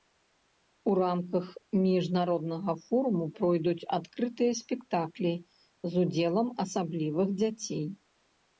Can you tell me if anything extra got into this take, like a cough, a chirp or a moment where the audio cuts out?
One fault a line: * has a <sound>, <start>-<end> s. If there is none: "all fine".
all fine